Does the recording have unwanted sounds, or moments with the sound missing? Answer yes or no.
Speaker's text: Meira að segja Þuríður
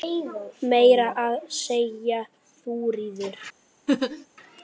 yes